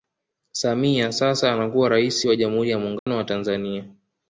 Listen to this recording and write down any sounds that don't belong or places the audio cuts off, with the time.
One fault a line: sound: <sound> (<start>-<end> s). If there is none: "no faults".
sound: dropout (3.0-3.1 s)